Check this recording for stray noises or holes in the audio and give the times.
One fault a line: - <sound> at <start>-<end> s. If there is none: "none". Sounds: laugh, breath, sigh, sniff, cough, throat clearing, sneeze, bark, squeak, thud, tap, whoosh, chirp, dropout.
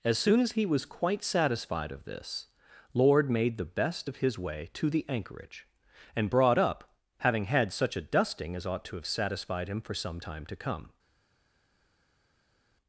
none